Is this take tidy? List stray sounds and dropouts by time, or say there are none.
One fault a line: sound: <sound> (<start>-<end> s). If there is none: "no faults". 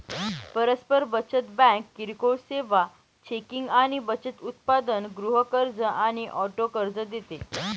no faults